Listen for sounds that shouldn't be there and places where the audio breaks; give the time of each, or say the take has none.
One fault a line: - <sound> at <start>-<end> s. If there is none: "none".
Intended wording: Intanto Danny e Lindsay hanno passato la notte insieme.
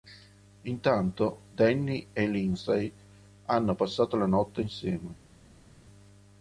none